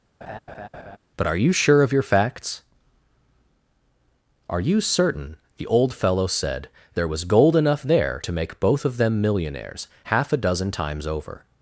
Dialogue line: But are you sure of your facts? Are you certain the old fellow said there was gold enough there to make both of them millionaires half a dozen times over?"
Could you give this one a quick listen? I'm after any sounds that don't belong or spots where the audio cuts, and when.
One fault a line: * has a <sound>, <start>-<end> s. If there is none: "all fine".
* has a laugh, 0.2-1.0 s